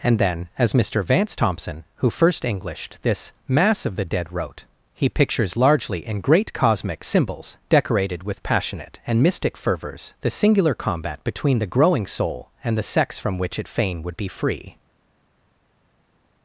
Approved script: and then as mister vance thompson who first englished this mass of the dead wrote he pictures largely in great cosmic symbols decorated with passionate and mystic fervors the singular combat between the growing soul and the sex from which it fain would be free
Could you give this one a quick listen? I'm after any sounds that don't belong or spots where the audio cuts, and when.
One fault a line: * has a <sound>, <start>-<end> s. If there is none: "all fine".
all fine